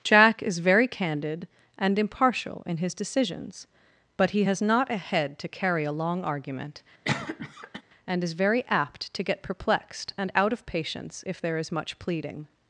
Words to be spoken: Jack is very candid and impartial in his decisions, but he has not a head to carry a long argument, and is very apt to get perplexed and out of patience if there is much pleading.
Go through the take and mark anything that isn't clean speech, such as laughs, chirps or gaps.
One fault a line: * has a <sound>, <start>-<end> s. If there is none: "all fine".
* has a cough, 7.0-7.8 s